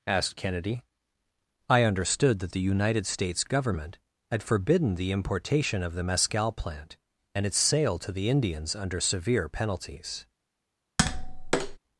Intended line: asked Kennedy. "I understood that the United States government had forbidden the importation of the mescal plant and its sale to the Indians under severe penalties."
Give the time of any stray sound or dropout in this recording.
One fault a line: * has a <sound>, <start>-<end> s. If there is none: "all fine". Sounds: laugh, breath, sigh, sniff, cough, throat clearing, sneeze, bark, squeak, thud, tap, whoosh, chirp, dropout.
* has a tap, 11.0-11.8 s